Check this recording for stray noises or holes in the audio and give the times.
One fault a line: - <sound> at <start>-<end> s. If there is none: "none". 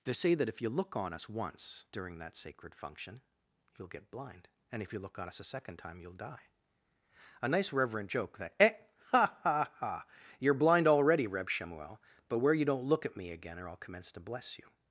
none